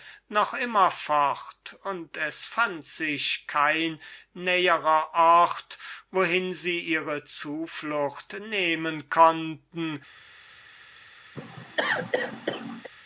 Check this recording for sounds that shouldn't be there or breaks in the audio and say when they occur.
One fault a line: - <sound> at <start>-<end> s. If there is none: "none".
- cough at 11.3-12.9 s